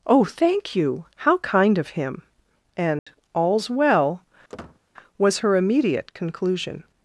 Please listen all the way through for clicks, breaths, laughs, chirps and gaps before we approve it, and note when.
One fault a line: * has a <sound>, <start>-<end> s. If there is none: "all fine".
* has a dropout, 3.0-3.1 s
* has a squeak, 4.5-4.8 s